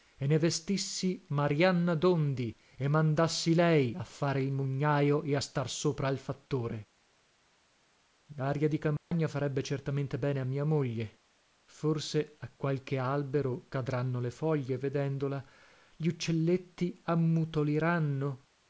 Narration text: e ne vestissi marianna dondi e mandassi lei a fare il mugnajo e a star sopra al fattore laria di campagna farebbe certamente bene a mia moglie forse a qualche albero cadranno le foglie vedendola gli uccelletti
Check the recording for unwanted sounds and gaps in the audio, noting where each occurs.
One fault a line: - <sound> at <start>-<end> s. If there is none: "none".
- dropout at 9.0-9.1 s